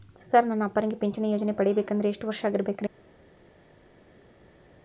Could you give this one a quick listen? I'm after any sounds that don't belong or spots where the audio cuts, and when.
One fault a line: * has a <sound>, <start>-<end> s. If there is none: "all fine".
all fine